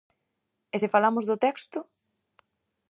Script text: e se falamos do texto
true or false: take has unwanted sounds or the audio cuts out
false